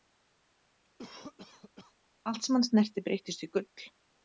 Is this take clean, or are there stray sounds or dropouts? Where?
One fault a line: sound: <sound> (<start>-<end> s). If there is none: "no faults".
sound: cough (1.0-1.9 s)